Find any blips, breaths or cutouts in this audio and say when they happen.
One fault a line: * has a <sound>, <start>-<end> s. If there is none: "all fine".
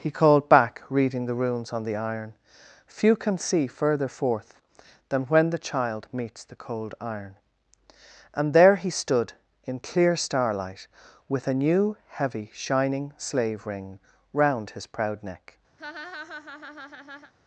* has a laugh, 15.8-17.3 s